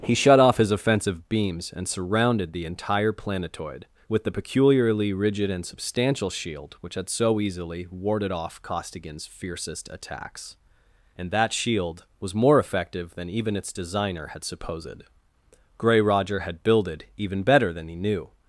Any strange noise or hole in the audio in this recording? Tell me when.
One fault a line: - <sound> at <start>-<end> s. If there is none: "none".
none